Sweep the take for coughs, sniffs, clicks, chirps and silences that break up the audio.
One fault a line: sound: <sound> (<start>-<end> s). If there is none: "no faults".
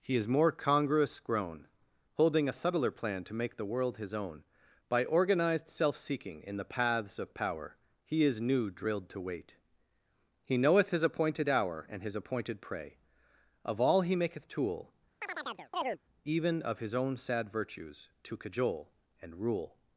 sound: chirp (15.2-16.0 s)